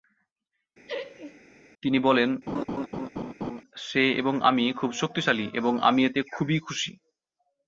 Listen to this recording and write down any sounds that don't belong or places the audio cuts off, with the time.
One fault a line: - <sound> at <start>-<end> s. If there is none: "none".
- laugh at 0.9-1.4 s
- laugh at 2.5-3.6 s